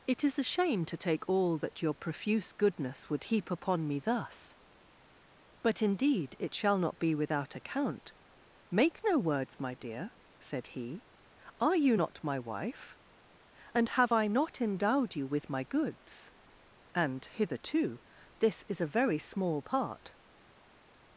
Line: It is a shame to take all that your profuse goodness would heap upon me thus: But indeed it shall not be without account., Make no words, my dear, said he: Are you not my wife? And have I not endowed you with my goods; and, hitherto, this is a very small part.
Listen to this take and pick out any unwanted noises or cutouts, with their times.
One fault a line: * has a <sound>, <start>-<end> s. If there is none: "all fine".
all fine